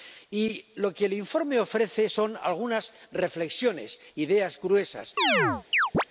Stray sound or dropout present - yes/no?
yes